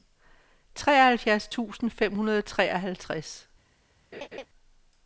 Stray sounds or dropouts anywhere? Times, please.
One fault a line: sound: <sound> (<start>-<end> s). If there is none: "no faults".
sound: laugh (4.1-4.5 s)